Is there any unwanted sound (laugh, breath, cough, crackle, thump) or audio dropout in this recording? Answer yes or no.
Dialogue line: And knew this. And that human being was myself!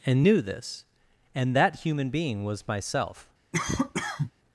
yes